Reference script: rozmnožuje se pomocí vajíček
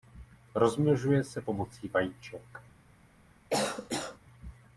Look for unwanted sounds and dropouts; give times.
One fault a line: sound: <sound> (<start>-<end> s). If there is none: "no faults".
sound: cough (3.5-4.2 s)